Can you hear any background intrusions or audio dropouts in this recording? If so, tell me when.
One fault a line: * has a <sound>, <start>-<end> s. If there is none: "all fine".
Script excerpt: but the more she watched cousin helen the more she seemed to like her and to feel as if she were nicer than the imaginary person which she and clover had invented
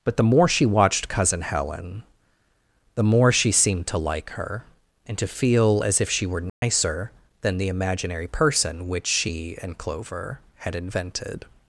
* has a dropout, 6.5-6.6 s